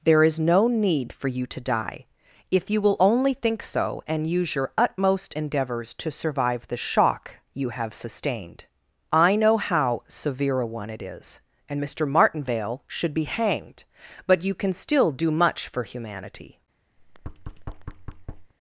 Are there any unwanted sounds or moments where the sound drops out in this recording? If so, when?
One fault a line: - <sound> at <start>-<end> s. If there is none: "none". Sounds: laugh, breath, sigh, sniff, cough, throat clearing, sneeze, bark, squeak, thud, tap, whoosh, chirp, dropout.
- thud at 17.0-18.5 s